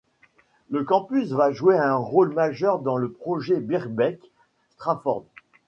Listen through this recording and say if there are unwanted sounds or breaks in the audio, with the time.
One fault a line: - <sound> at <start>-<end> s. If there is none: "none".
none